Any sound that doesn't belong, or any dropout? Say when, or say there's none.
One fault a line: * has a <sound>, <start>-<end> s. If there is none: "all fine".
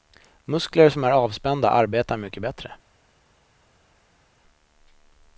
all fine